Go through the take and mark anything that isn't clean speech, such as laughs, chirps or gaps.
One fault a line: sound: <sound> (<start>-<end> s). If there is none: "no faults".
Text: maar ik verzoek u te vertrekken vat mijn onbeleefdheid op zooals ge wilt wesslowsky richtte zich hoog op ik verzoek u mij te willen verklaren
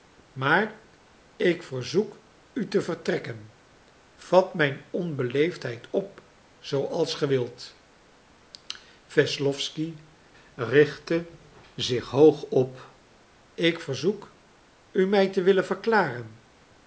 no faults